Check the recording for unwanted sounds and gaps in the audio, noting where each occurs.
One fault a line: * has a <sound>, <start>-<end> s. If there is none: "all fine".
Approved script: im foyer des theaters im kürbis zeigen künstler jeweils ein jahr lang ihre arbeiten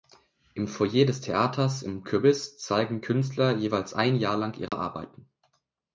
* has a dropout, 4.7-4.7 s